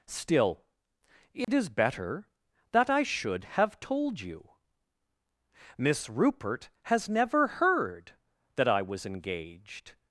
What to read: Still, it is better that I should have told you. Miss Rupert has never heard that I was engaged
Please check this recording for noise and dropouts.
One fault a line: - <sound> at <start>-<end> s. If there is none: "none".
- dropout at 1.4-1.5 s